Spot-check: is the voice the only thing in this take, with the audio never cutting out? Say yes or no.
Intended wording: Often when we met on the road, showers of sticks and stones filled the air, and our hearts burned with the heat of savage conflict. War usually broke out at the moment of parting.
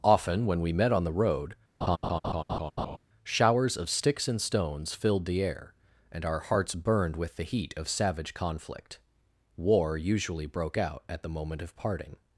no